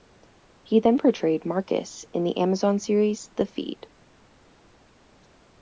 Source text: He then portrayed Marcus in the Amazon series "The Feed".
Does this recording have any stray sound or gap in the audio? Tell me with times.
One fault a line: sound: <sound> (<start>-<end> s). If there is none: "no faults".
no faults